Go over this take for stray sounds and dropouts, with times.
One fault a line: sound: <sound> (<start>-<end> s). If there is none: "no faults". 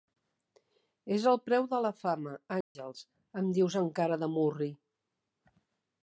sound: dropout (2.6-2.8 s)